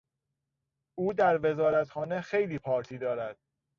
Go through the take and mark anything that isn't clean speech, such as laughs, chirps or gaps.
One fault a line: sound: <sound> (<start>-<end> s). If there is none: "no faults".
no faults